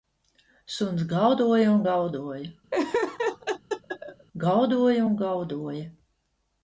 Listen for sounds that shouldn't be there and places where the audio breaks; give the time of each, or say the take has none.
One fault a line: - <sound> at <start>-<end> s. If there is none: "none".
- laugh at 2.7-4.3 s